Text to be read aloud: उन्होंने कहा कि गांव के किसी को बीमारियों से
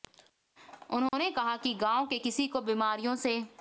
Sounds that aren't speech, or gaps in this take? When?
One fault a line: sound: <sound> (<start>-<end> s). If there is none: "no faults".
sound: dropout (1.1-1.1 s)